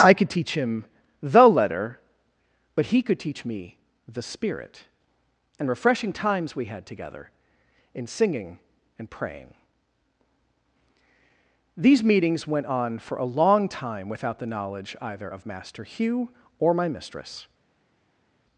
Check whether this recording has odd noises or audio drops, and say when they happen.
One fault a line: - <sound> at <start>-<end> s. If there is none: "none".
none